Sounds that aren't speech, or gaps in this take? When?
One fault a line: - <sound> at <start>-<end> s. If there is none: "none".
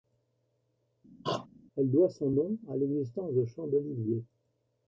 - throat clearing at 1.2-1.5 s